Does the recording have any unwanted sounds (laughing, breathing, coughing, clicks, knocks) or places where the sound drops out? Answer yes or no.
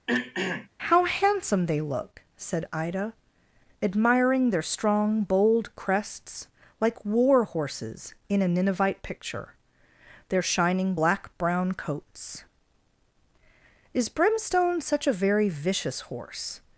yes